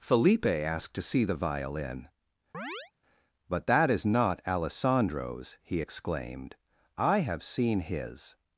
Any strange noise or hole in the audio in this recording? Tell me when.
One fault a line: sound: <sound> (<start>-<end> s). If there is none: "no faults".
sound: chirp (2.5-2.9 s)